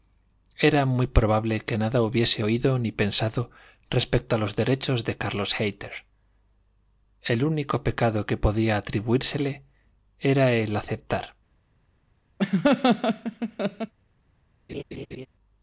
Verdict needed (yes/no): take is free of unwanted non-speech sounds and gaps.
no